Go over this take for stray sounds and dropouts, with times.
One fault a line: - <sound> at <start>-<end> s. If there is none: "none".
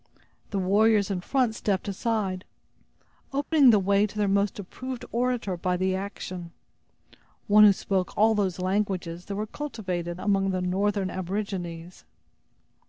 - dropout at 3.4-3.5 s